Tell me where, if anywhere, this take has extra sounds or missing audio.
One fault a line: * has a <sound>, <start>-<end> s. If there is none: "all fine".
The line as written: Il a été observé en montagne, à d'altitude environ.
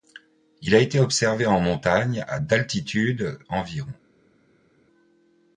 all fine